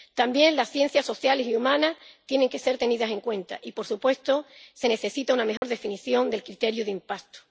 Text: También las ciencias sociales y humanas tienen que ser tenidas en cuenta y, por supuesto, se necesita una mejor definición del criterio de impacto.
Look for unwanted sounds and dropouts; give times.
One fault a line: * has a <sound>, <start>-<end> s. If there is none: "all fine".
* has a dropout, 5.6-5.6 s